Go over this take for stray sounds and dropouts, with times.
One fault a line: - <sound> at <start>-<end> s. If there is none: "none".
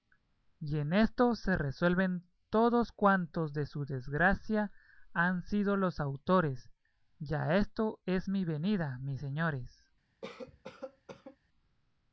- cough at 10.2-11.4 s